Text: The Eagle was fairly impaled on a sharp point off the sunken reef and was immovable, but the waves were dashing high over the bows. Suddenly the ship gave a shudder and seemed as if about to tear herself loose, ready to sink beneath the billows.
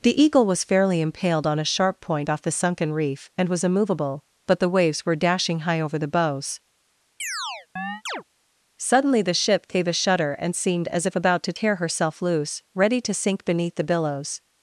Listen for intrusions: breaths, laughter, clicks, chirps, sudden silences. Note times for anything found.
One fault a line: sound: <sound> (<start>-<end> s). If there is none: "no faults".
sound: chirp (7.2-8.2 s)